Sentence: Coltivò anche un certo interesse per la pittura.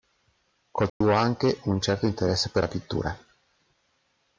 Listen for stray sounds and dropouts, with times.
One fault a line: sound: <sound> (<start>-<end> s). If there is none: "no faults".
sound: dropout (0.9-1.0 s)